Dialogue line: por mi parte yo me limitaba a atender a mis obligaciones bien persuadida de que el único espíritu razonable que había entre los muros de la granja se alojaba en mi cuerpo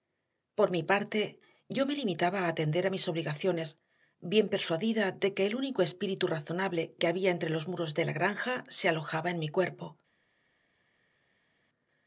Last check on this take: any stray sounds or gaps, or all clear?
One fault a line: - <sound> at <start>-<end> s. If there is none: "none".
none